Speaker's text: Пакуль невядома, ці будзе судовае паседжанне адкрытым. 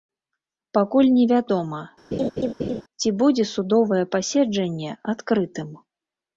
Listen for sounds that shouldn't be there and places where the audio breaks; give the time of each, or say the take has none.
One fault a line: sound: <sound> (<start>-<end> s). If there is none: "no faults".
sound: laugh (2.1-2.8 s)